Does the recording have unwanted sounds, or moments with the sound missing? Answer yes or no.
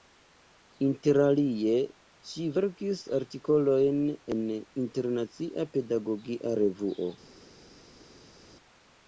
no